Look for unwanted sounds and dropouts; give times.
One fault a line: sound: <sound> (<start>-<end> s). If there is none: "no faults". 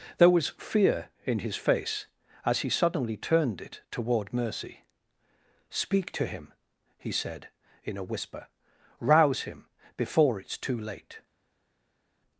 no faults